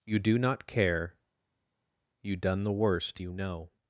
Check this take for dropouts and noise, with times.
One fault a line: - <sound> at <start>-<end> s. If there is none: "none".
none